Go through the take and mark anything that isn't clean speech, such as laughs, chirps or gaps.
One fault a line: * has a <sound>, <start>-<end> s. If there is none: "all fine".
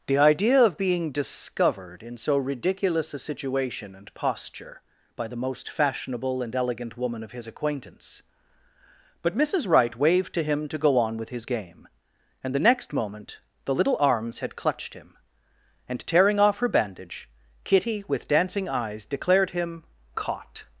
all fine